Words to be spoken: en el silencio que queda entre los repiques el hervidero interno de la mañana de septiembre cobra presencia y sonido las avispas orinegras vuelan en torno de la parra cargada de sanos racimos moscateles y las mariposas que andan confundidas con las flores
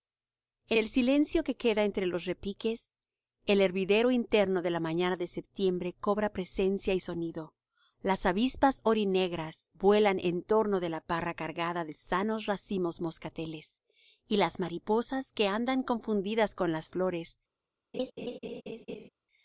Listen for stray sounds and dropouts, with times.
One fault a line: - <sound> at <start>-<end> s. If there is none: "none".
- laugh at 17.9-19.1 s